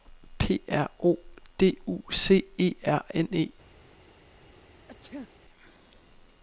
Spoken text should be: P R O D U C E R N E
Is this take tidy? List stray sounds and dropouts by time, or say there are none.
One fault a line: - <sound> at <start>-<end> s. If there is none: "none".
- sneeze at 4.9-5.3 s